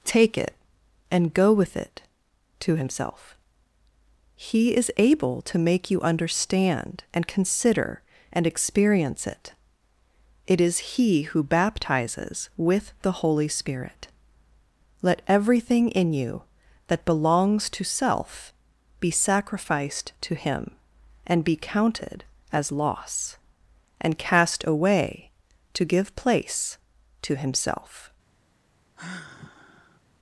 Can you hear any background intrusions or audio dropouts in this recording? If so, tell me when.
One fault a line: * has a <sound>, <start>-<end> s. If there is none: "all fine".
* has a sigh, 29.0-30.0 s